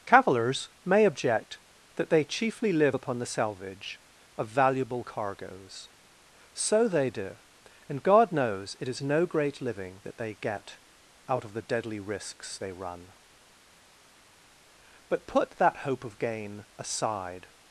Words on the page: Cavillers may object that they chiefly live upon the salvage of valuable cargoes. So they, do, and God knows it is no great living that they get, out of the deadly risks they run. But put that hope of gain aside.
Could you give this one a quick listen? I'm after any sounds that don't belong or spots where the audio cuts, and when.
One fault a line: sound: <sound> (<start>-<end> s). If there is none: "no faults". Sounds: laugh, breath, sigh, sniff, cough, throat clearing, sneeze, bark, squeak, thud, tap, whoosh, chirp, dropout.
no faults